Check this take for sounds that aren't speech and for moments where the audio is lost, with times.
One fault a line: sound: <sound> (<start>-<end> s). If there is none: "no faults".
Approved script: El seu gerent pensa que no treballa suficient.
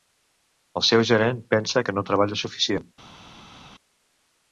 no faults